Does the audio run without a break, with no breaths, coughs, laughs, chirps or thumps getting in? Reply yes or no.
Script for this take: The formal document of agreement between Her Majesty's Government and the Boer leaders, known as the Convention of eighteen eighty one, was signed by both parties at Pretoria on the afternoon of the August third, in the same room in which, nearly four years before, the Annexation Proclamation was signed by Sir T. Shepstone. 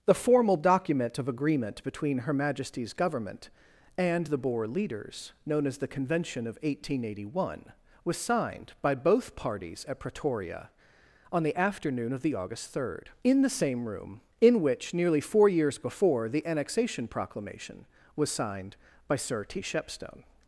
yes